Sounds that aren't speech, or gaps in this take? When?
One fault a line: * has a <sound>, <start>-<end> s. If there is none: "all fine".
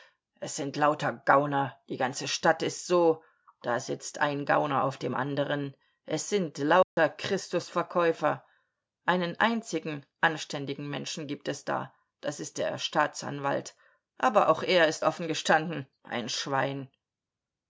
* has a dropout, 6.8-7.0 s